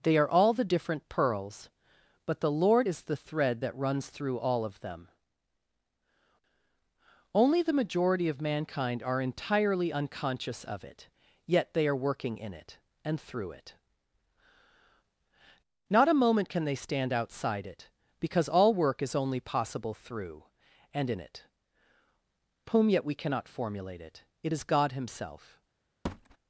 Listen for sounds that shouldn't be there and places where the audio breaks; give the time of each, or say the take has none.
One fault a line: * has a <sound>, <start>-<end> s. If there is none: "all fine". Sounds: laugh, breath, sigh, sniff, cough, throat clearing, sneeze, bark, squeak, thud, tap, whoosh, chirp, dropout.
* has a thud, 26.0-26.4 s